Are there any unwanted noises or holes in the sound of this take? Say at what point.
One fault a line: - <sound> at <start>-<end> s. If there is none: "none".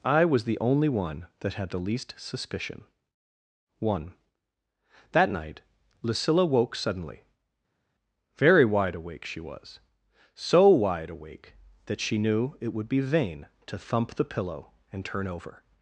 none